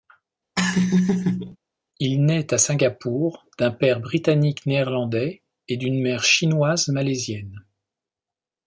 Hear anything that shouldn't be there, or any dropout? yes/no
yes